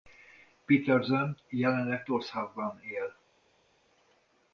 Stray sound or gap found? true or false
false